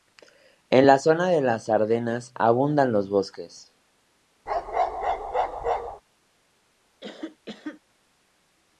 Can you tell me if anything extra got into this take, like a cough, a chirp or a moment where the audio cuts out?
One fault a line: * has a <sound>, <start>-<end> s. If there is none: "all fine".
* has a bark, 4.5-6.0 s
* has a cough, 7.0-7.8 s